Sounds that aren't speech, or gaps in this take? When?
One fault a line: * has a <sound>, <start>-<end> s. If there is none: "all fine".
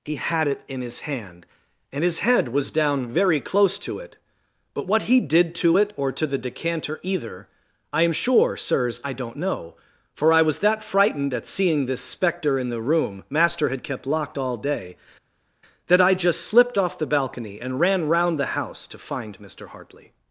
all fine